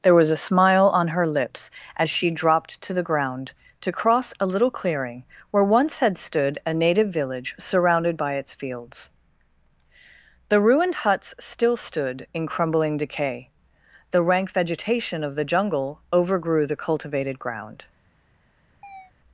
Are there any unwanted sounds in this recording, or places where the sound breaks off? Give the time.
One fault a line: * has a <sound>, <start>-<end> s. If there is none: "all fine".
* has a chirp, 18.8-19.1 s